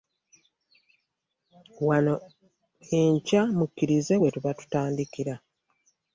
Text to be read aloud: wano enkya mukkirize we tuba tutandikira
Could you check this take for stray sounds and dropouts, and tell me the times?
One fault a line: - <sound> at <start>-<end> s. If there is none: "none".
none